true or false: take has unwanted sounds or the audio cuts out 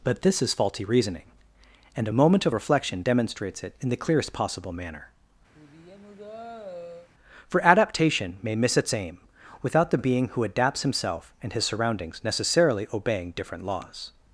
true